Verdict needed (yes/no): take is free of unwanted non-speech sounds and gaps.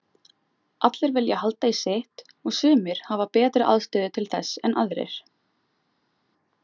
yes